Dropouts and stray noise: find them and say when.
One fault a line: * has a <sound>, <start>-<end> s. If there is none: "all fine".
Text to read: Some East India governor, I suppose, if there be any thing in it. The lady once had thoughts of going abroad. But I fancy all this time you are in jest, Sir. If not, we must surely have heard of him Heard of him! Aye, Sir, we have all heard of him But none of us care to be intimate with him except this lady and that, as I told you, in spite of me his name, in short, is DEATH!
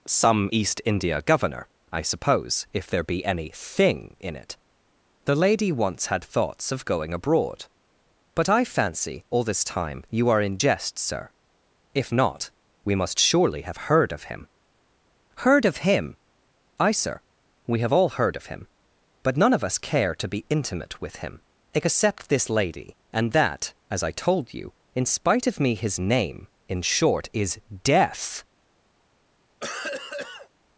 * has a cough, 29.6-30.5 s